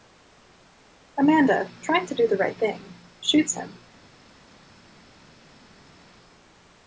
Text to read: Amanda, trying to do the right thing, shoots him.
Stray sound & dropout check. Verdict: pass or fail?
pass